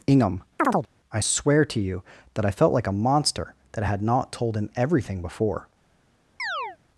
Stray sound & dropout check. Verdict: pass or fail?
fail